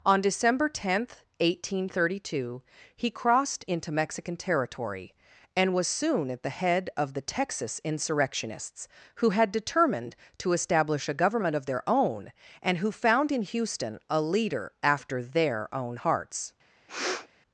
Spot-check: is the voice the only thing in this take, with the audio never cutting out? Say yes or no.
no